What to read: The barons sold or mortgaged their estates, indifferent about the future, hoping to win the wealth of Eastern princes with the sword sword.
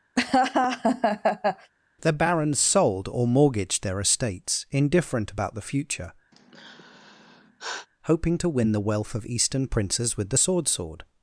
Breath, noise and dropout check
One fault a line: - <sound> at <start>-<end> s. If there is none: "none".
- laugh at 0.2-1.7 s
- sigh at 6.3-7.9 s